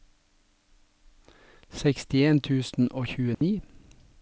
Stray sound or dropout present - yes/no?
yes